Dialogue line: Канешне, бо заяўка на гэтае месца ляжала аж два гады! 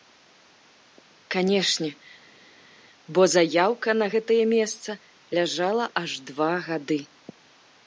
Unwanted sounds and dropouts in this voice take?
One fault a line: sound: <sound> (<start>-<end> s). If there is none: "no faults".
no faults